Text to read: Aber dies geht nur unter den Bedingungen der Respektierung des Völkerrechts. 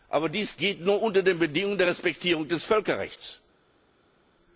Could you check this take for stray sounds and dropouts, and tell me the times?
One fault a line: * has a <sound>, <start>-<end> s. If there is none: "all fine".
all fine